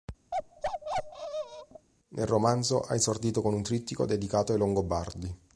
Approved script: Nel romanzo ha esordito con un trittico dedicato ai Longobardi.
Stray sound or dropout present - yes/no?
yes